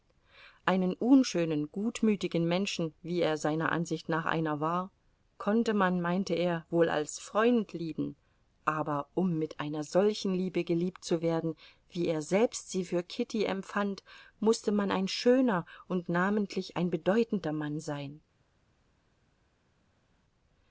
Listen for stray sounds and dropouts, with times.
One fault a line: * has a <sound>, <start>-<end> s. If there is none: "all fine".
all fine